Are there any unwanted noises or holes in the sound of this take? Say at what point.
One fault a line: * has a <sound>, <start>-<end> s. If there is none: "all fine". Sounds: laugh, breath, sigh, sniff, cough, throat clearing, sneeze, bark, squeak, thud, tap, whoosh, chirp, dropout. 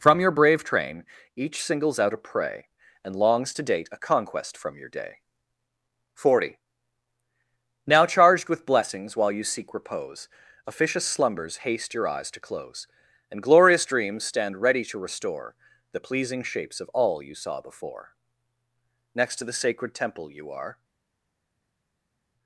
all fine